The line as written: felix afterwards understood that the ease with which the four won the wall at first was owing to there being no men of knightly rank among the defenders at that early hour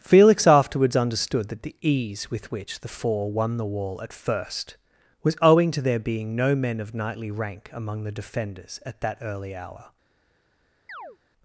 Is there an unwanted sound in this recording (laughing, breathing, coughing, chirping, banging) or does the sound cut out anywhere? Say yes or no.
yes